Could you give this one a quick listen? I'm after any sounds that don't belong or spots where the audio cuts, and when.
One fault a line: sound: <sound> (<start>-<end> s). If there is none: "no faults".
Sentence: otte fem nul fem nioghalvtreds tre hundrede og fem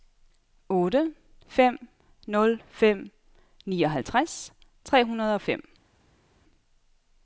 no faults